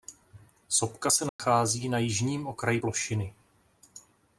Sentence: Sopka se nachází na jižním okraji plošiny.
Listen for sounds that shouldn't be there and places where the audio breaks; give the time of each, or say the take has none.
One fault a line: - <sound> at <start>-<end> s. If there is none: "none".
- dropout at 1.3-1.4 s